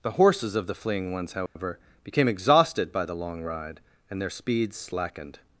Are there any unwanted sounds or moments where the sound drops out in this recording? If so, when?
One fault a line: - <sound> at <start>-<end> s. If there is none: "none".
- dropout at 1.5-1.6 s